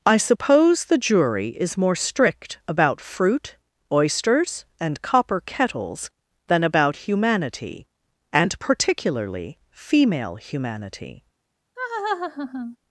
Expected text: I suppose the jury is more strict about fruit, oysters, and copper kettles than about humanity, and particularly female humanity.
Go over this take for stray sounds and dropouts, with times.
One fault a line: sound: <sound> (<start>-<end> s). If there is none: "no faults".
sound: laugh (11.8-12.8 s)